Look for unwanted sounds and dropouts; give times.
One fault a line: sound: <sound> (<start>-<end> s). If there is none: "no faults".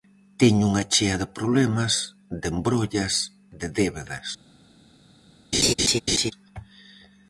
sound: laugh (5.5-6.3 s)